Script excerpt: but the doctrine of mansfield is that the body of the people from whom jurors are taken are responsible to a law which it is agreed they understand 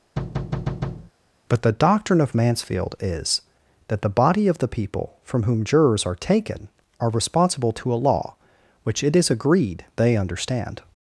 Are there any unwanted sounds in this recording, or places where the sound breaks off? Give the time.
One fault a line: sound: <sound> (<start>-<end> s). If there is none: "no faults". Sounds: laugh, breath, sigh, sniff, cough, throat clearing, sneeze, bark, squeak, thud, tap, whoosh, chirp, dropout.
sound: thud (0.2-1.1 s)